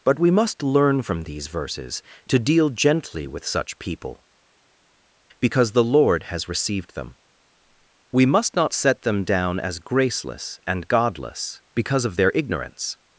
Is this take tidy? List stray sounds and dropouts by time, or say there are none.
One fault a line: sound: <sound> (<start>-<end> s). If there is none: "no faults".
no faults